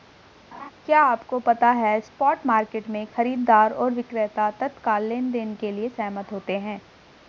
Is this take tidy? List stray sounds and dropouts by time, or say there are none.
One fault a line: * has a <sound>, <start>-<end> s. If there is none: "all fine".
* has a laugh, 0.5-0.7 s